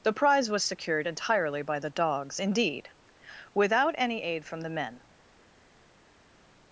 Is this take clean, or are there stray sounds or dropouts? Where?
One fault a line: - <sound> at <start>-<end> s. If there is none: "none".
none